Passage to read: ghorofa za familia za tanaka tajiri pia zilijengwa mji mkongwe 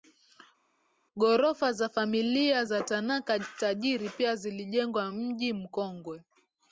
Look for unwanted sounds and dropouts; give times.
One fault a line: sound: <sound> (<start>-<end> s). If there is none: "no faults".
no faults